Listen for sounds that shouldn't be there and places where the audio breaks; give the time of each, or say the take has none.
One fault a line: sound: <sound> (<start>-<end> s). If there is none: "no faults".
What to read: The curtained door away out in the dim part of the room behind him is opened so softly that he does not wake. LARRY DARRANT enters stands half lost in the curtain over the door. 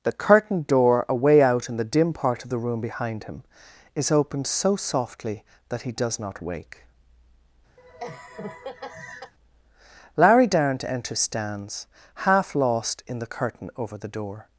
sound: laugh (7.8-9.3 s)